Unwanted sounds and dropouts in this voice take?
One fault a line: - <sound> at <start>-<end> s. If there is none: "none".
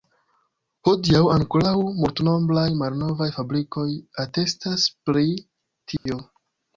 - dropout at 6.0-6.1 s